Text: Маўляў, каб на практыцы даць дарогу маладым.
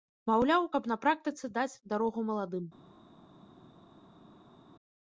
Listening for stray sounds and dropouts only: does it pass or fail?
pass